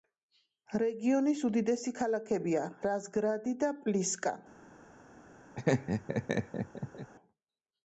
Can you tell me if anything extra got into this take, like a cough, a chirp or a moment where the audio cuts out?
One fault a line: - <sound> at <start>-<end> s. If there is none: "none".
- laugh at 5.5-7.1 s